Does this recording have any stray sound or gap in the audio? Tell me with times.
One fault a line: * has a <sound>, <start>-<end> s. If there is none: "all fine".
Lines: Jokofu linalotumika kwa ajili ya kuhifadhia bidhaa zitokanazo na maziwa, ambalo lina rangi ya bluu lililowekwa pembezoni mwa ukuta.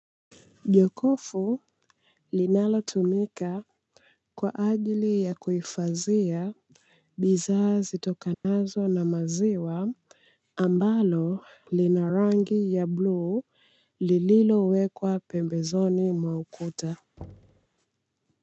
* has a dropout, 8.3-8.4 s
* has a thud, 17.2-17.7 s